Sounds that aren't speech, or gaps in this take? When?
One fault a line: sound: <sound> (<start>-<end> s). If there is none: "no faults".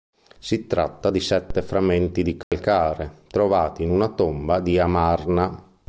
sound: dropout (2.4-2.5 s)